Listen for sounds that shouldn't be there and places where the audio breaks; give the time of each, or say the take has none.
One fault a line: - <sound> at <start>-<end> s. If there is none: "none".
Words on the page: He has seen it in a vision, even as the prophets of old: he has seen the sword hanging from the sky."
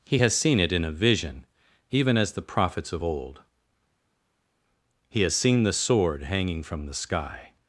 none